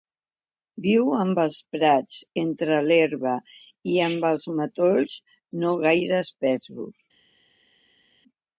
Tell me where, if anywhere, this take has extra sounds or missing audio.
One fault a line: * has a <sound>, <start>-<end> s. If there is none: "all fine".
all fine